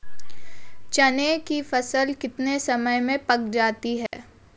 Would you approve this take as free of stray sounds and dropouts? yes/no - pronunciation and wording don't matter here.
no